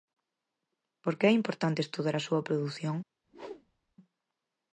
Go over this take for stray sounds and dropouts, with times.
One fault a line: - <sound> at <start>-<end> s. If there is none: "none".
- whoosh at 3.2-4.0 s